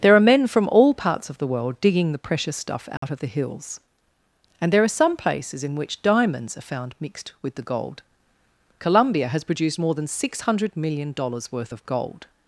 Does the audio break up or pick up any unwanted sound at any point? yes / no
yes